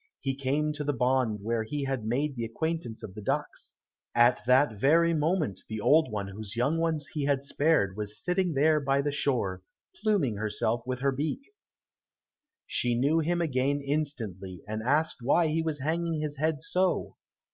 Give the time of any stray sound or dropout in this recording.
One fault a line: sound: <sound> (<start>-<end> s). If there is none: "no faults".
no faults